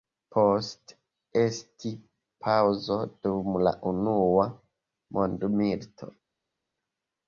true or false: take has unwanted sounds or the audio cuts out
false